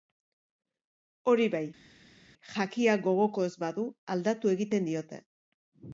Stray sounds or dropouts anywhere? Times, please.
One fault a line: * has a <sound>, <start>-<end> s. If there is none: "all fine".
all fine